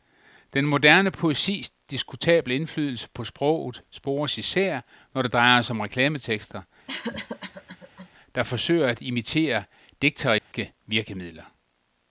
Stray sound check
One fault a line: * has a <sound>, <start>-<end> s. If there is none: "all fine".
* has a cough, 6.9-8.1 s
* has a dropout, 10.4-10.5 s